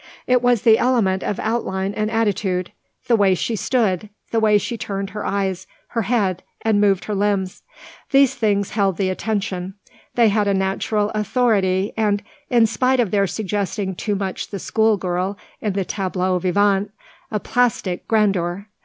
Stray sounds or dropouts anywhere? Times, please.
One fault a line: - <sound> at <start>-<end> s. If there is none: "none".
none